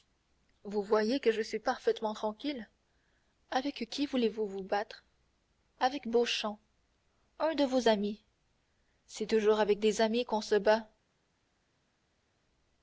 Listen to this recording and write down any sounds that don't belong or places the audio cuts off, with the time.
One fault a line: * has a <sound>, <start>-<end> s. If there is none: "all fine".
all fine